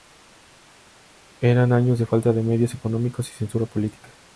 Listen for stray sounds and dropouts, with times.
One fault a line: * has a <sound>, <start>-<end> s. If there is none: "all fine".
all fine